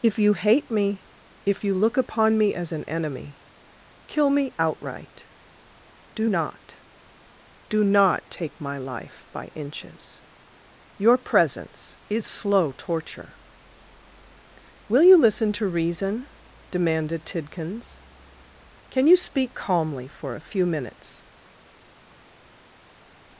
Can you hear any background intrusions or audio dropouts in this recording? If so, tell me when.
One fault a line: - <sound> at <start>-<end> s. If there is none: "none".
none